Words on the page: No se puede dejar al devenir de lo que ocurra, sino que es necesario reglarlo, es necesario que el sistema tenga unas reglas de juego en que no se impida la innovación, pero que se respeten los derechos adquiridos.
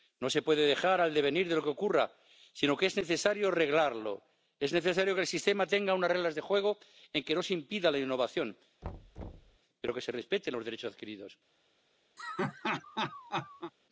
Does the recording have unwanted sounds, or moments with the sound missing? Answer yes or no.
yes